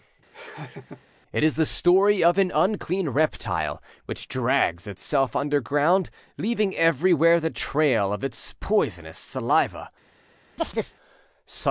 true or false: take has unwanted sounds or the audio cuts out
true